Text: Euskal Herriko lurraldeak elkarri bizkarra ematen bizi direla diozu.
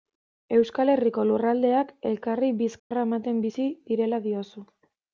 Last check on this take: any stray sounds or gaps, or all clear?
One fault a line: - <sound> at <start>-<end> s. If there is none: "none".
- dropout at 2.8-2.9 s